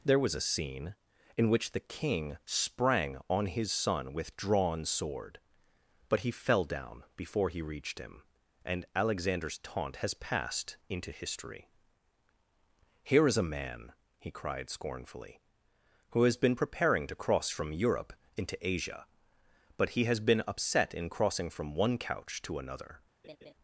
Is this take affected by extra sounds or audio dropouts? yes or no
yes